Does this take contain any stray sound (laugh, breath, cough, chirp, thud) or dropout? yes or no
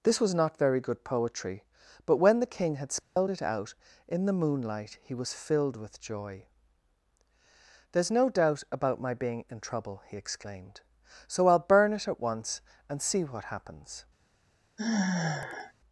yes